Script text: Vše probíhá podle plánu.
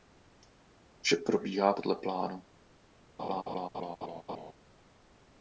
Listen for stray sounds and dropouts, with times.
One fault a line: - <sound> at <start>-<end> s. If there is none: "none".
- laugh at 3.2-4.5 s